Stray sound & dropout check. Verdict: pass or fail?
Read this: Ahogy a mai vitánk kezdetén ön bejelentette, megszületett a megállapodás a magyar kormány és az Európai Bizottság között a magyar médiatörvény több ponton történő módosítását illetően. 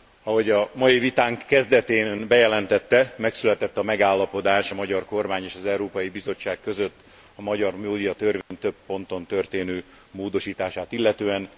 fail